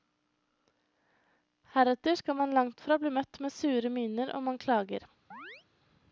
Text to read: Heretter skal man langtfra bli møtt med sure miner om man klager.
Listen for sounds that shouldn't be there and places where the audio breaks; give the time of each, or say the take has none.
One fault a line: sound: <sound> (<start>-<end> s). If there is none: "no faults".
sound: chirp (5.3-5.7 s)